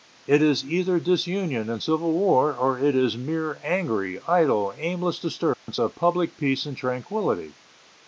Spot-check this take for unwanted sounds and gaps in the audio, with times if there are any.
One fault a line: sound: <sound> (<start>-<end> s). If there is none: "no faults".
sound: dropout (5.5-5.7 s)